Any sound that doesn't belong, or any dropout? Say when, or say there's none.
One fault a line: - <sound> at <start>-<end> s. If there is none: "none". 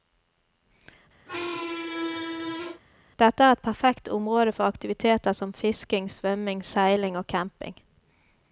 - squeak at 1.3-2.8 s